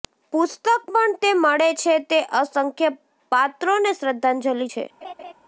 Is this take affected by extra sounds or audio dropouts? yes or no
yes